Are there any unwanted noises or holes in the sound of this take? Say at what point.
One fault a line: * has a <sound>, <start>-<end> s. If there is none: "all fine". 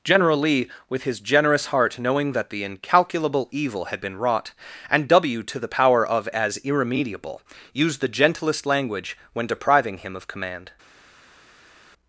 all fine